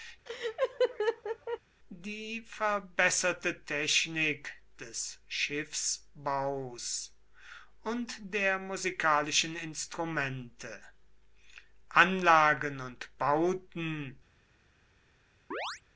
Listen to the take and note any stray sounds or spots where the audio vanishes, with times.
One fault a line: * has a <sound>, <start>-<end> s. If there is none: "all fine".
* has a laugh, 0.3-1.6 s
* has a chirp, 15.5-15.8 s